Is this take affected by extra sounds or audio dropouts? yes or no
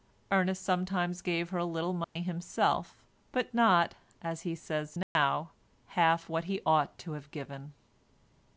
yes